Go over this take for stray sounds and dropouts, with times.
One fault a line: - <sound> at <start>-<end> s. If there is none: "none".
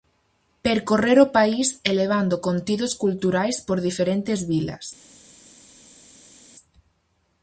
none